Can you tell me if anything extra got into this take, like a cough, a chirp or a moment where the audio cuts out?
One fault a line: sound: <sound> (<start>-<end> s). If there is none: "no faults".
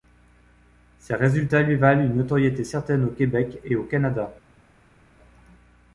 no faults